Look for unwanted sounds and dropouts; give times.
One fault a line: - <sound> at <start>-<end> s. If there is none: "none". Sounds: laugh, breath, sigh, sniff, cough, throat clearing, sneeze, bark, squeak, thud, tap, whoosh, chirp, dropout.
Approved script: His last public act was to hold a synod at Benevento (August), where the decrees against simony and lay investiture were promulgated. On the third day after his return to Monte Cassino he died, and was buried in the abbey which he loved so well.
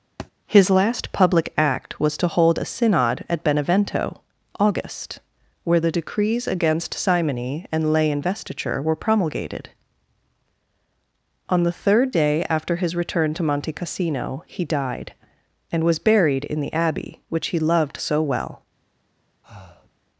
- thud at 0.2-0.3 s
- breath at 19.4-19.9 s